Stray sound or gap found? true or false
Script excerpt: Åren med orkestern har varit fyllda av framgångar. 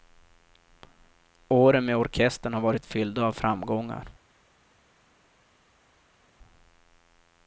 false